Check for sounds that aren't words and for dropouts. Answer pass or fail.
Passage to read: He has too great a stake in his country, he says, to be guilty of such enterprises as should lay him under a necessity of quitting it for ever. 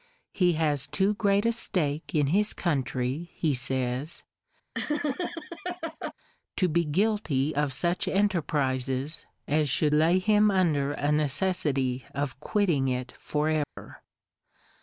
fail